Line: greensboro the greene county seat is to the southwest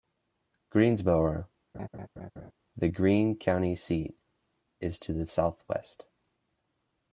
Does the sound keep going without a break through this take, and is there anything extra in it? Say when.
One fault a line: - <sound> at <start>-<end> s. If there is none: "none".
- laugh at 1.7-2.5 s